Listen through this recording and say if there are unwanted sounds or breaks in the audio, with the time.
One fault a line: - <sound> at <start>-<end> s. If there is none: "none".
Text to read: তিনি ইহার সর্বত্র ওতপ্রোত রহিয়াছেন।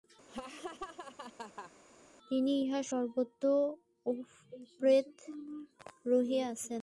- laugh at 0.3-1.7 s